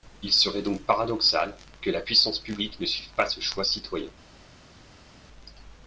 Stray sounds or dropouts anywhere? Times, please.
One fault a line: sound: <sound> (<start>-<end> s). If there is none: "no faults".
no faults